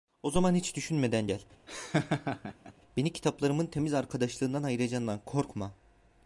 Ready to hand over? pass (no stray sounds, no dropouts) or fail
fail